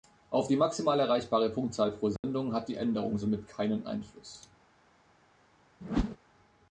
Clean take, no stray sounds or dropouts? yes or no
no